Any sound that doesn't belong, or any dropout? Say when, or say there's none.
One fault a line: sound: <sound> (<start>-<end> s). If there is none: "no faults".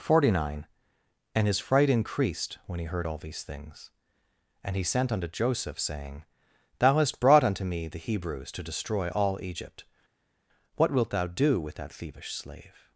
no faults